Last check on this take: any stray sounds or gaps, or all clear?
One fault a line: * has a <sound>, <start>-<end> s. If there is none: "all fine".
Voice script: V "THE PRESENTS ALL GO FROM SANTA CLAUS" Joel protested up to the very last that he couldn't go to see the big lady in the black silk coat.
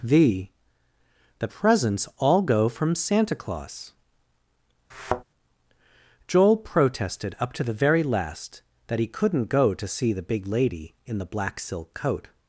* has a thud, 4.9-5.2 s